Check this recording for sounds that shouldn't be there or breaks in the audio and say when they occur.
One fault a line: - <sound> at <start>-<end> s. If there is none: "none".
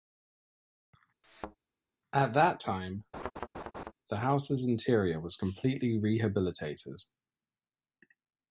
- thud at 1.2-1.6 s
- laugh at 3.1-3.9 s